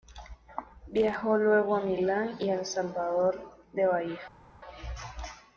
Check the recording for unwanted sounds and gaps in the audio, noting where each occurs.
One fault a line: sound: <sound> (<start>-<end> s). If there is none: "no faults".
no faults